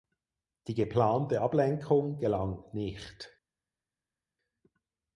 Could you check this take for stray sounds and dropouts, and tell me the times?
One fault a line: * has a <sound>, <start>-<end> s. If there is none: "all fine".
all fine